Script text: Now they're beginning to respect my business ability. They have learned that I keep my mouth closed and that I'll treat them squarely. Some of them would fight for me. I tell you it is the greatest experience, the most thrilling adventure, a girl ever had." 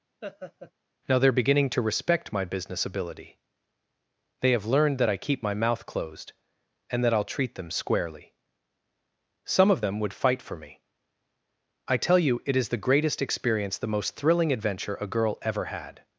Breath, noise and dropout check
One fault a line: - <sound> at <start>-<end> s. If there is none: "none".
- laugh at 0.2-0.7 s